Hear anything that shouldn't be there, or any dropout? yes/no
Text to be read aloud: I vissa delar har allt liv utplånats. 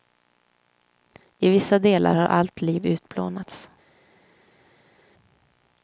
no